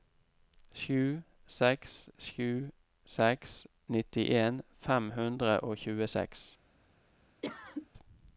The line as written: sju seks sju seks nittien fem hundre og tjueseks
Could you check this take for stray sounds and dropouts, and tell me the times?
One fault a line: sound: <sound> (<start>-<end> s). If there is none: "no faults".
sound: cough (7.4-7.9 s)